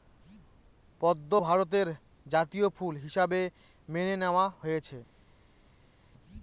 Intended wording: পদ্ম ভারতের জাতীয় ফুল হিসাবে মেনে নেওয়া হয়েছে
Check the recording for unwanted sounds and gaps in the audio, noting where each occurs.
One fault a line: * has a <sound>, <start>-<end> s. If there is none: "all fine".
all fine